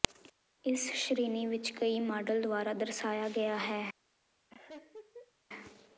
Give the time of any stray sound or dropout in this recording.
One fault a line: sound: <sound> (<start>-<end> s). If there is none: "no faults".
sound: laugh (4.5-5.3 s)